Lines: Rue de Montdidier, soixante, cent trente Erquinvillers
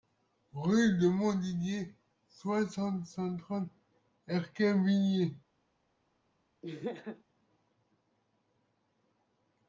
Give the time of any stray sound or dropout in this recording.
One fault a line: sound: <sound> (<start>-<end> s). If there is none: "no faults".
sound: laugh (6.6-7.2 s)